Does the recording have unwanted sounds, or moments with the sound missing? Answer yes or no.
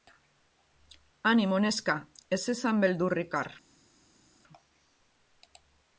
no